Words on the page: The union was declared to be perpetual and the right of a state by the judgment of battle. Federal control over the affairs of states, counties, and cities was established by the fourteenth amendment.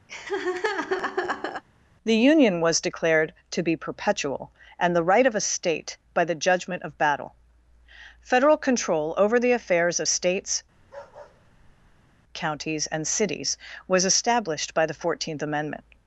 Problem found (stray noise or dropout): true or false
true